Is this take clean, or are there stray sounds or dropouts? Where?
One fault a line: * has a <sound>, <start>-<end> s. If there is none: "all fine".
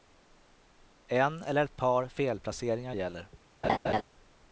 * has a laugh, 3.6-4.0 s